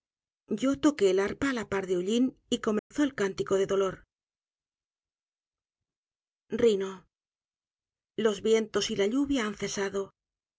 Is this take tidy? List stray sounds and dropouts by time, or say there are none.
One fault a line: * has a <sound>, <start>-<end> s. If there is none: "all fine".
* has a dropout, 2.8-2.9 s